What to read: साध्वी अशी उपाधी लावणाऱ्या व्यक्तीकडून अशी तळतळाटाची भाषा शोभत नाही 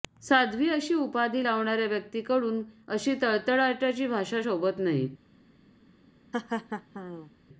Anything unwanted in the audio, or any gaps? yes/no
yes